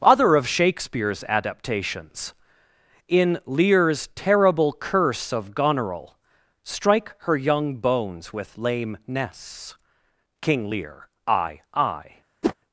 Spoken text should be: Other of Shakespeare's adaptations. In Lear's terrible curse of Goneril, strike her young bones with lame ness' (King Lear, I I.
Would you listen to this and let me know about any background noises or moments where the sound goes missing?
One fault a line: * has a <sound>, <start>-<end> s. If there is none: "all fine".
* has a whoosh, 12.4-12.5 s